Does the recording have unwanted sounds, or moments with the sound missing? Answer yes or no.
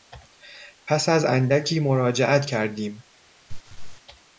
yes